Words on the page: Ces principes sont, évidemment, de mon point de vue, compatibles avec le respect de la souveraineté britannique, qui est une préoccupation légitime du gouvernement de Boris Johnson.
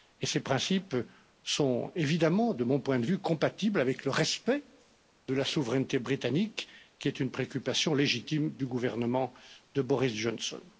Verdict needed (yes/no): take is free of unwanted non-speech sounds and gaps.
yes